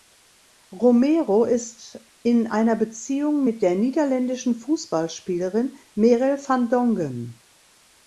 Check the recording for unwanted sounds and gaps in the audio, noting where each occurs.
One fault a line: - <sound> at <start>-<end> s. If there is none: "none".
none